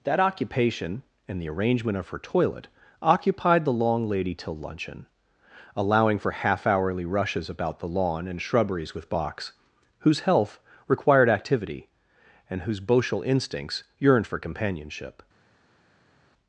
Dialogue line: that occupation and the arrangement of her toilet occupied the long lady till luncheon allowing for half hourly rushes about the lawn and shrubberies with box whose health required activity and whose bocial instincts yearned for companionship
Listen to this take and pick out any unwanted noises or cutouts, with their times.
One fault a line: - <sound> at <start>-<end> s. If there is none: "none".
none